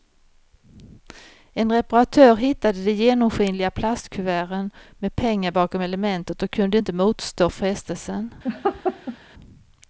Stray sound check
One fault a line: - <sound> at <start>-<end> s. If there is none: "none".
- laugh at 8.4-9.2 s